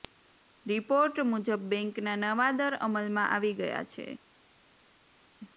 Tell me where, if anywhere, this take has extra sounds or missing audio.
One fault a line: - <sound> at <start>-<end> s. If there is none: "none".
none